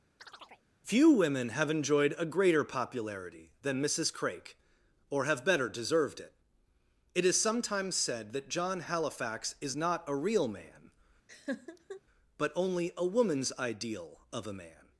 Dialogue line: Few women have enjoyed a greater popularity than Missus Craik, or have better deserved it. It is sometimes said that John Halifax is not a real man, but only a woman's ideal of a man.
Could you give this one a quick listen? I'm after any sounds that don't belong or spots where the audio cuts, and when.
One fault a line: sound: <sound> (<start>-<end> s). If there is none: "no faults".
sound: chirp (0.2-0.7 s)
sound: laugh (11.3-12.0 s)